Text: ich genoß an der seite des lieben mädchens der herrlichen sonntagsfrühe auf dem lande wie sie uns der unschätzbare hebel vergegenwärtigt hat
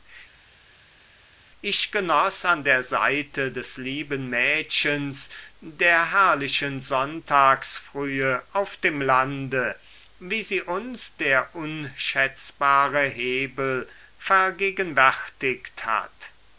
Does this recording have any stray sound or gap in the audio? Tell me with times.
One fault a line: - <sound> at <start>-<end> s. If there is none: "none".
none